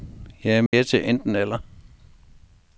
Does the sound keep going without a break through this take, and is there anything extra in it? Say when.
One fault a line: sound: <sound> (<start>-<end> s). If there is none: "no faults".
sound: dropout (0.7-0.7 s)